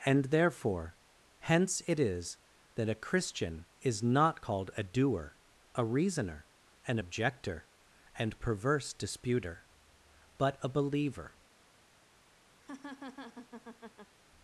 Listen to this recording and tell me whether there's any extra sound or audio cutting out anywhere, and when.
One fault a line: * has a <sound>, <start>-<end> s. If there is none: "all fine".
* has a laugh, 12.6-14.1 s